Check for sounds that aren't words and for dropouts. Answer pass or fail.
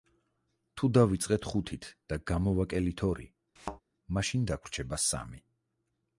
fail